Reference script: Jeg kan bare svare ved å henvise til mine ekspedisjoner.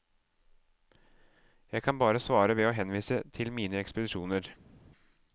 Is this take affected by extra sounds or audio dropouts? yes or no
no